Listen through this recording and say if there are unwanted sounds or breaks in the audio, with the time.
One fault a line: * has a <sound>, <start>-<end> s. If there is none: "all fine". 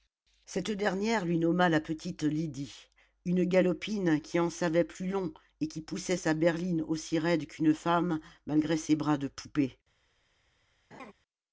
* has a laugh, 10.9-11.1 s